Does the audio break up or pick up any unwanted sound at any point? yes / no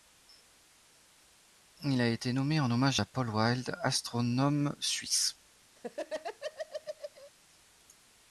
yes